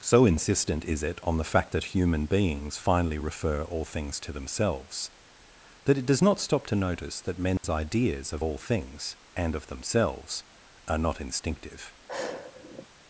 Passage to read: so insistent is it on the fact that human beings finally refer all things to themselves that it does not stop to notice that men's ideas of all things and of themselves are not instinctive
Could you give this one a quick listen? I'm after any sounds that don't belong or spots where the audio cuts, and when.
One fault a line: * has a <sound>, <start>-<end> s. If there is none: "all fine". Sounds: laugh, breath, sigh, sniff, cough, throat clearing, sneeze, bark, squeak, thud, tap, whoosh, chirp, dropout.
* has a dropout, 7.6-7.6 s
* has a sigh, 12.1-12.9 s